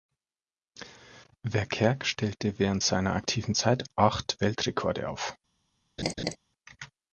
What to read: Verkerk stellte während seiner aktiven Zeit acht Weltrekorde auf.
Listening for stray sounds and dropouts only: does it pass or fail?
fail